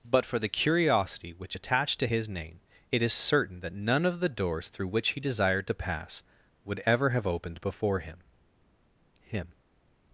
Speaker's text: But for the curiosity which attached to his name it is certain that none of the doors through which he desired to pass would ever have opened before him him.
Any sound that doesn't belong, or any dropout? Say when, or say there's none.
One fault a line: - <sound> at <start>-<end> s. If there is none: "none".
none